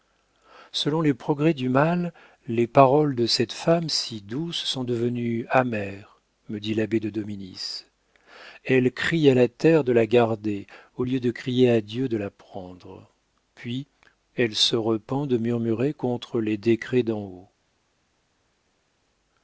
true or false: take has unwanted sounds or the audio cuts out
false